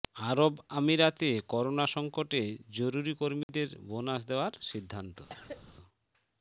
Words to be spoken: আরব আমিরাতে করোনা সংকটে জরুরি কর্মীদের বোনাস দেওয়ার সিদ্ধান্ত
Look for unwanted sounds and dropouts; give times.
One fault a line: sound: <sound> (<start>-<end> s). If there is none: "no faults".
sound: dropout (3.4-3.5 s)
sound: cough (5.3-5.8 s)